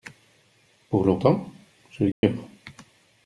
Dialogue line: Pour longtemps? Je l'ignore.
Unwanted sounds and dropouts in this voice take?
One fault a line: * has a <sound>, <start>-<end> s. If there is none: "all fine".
* has a dropout, 2.1-2.2 s